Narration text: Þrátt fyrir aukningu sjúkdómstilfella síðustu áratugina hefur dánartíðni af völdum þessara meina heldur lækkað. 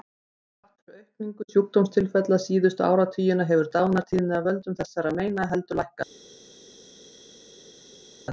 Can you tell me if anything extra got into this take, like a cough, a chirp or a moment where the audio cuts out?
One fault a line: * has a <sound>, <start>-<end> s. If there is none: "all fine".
all fine